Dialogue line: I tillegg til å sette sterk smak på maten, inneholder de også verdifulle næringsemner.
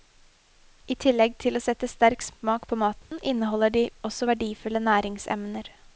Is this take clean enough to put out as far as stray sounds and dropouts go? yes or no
no